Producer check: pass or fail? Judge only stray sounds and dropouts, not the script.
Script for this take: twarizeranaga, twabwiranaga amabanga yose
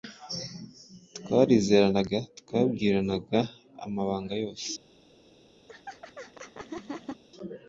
fail